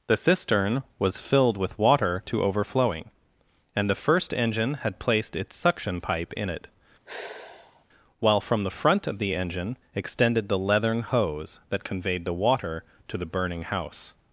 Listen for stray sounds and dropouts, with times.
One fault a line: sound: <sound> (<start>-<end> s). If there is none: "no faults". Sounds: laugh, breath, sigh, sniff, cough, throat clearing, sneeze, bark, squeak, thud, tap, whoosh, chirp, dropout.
sound: sigh (7.0-7.8 s)